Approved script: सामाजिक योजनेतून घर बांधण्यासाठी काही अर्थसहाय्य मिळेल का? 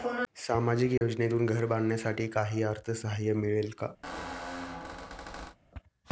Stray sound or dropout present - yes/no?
yes